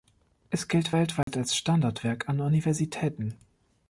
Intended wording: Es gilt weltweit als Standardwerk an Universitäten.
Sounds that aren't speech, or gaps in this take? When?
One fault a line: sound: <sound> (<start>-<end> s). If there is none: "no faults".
sound: dropout (1.2-1.3 s)